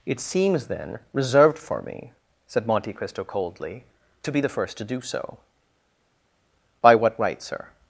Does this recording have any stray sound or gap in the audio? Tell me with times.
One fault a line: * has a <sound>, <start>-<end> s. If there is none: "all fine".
all fine